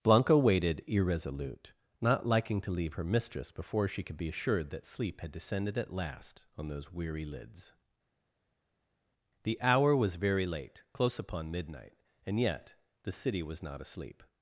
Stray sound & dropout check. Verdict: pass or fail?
pass